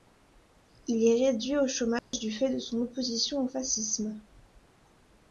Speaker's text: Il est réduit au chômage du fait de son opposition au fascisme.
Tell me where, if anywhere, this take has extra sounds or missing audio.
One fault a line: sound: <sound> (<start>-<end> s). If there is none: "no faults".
sound: dropout (2.0-2.1 s)